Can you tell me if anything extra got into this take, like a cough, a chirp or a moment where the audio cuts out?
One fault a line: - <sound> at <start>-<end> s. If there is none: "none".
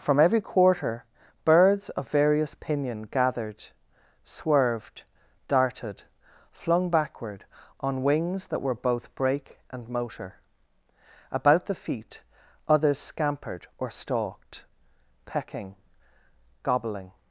none